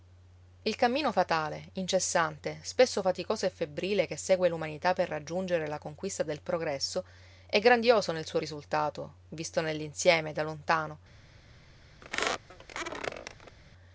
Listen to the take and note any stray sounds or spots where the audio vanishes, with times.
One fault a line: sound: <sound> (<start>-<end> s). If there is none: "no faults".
sound: squeak (12.0-13.6 s)